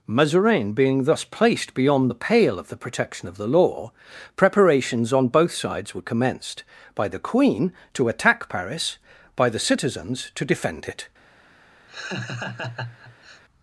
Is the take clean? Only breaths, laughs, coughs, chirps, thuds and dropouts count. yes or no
no